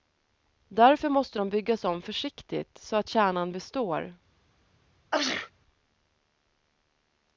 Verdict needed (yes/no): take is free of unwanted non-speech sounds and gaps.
no